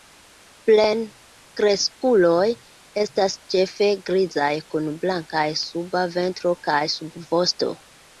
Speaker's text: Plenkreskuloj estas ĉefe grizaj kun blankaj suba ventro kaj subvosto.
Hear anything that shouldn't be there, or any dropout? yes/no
no